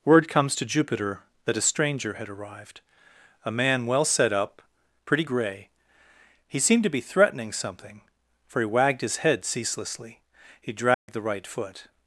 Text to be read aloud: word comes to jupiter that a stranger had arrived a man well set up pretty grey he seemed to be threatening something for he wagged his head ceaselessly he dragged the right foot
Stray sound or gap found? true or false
true